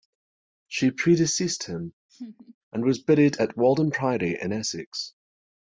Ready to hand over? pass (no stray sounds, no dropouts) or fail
fail